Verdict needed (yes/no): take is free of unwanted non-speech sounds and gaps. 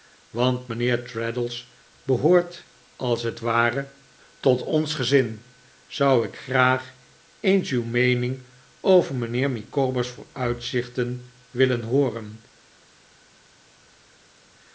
yes